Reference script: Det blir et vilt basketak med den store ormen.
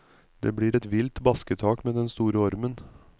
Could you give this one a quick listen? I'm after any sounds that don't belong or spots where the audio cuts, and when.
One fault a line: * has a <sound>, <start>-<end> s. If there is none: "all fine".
all fine